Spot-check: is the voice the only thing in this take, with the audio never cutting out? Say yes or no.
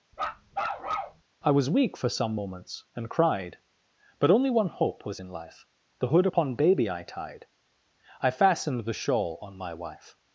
no